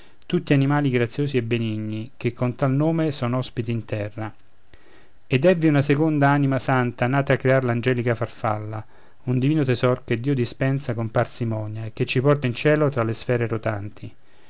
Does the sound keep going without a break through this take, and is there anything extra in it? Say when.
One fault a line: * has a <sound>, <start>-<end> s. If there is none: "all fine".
all fine